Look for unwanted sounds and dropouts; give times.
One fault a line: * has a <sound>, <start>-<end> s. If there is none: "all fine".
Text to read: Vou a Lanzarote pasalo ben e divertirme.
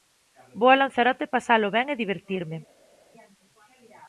all fine